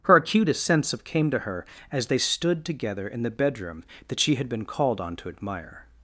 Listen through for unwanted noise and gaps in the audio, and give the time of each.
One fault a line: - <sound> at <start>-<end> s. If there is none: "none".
none